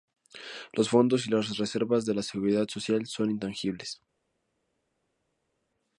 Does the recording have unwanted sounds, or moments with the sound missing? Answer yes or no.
no